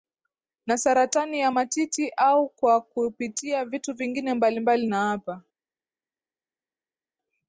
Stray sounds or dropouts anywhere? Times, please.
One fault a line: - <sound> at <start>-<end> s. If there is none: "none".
none